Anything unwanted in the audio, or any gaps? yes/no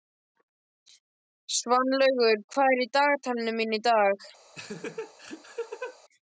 yes